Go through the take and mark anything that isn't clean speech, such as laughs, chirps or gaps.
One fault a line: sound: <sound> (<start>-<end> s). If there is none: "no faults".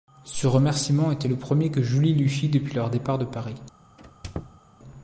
sound: squeak (4.0-4.6 s)